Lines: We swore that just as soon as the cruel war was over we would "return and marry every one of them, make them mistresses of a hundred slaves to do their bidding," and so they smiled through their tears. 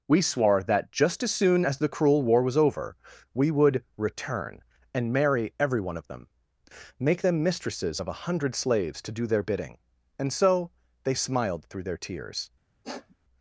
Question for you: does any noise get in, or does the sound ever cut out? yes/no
yes